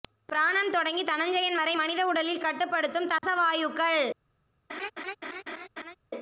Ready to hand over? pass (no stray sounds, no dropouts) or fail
fail